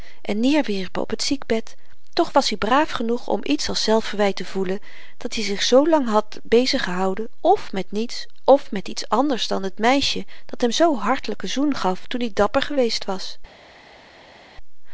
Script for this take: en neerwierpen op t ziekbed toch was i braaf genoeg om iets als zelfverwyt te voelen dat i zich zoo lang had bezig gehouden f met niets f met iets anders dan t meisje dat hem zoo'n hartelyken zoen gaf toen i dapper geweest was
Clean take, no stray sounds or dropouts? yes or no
yes